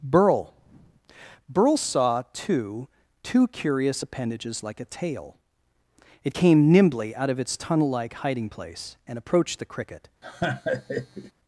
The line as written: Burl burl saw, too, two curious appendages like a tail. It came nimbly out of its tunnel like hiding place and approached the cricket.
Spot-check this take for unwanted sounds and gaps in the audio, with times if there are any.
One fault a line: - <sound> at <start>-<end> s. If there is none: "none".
- laugh at 10.2-11.3 s